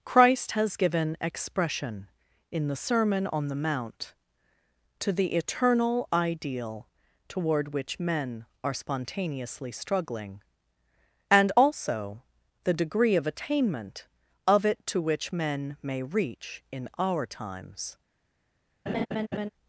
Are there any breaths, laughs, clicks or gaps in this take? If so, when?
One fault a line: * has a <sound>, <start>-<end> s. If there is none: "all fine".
* has a laugh, 18.9-19.5 s